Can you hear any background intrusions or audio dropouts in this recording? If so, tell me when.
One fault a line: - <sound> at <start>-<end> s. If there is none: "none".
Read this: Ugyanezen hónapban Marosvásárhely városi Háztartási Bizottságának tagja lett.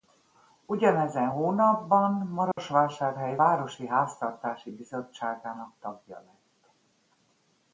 - dropout at 2.5-2.6 s